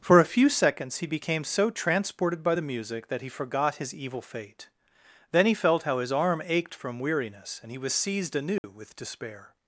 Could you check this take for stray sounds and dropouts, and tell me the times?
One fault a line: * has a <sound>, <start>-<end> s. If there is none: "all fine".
* has a dropout, 8.6-8.6 s